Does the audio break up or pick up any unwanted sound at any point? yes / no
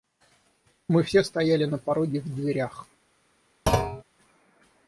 yes